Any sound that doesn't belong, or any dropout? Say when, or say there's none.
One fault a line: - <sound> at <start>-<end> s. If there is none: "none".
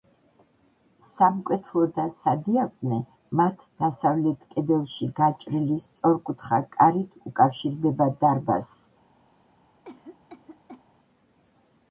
- cough at 9.8-10.8 s